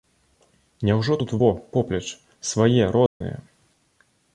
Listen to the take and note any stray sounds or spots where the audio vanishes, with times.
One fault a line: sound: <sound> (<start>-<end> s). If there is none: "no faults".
sound: dropout (3.1-3.2 s)